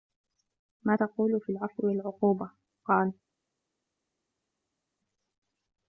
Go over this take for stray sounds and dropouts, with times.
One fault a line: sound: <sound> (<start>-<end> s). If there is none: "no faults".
no faults